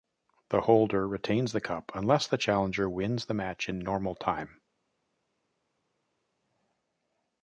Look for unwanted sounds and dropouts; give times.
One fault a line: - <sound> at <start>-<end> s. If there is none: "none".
none